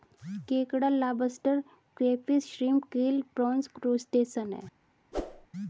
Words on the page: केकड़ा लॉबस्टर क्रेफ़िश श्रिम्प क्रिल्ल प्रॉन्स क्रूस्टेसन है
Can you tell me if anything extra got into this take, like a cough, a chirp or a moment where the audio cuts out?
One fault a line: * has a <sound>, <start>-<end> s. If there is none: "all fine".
* has a whoosh, 5.1-5.5 s